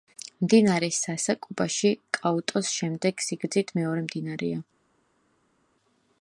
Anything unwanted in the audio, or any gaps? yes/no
no